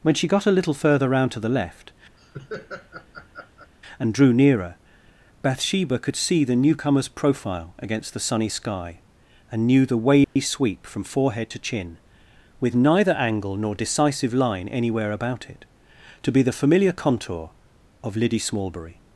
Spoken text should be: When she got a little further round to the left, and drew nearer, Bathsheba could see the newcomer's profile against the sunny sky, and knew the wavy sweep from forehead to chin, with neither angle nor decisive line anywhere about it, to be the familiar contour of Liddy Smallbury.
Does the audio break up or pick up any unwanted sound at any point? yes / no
yes